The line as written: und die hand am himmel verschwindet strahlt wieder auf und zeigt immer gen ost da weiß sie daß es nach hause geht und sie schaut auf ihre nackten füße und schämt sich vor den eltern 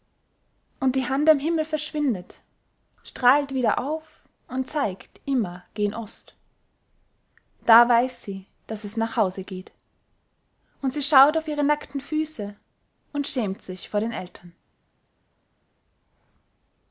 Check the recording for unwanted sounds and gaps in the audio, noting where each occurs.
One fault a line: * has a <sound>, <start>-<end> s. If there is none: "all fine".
all fine